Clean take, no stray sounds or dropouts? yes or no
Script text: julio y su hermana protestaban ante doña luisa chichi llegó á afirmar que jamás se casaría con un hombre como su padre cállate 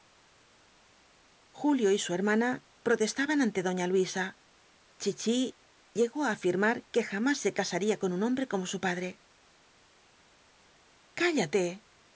yes